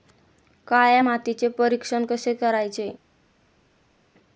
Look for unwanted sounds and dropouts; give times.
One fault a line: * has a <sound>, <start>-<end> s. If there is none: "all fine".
all fine